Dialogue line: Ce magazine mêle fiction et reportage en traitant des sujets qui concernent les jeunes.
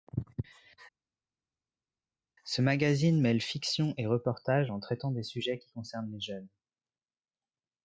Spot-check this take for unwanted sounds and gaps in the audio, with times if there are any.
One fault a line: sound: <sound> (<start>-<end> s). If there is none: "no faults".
no faults